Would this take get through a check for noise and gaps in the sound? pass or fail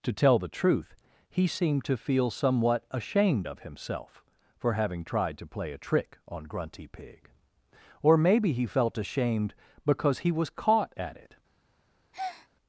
fail